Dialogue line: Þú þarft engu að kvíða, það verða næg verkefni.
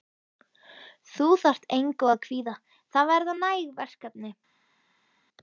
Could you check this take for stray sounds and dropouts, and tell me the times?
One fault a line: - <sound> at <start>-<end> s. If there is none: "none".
none